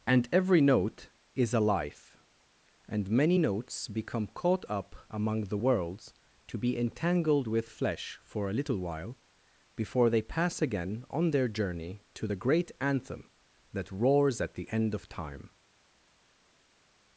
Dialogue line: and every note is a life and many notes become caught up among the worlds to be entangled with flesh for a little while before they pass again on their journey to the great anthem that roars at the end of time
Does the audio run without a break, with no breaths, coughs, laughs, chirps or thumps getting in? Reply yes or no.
yes